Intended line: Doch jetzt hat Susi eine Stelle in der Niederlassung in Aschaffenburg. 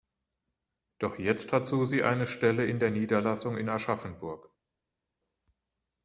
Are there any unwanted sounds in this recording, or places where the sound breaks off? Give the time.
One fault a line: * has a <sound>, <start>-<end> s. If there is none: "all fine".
all fine